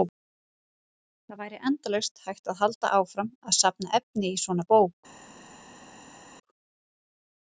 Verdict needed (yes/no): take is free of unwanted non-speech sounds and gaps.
yes